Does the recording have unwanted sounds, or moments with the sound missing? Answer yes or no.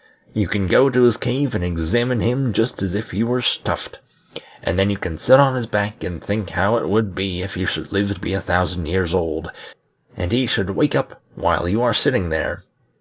no